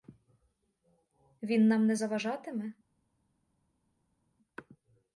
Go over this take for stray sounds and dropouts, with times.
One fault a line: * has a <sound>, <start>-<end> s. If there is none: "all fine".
all fine